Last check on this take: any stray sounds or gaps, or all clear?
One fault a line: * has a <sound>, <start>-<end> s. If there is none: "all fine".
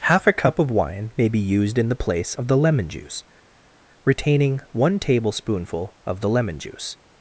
all fine